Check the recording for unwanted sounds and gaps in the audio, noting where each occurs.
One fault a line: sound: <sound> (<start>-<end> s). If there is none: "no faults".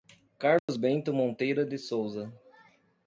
sound: dropout (0.6-0.7 s)